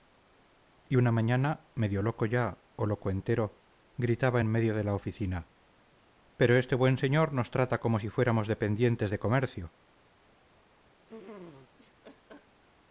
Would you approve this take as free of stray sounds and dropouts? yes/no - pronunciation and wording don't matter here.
no